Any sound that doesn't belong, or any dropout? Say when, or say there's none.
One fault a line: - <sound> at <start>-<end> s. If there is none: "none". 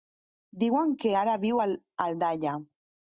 none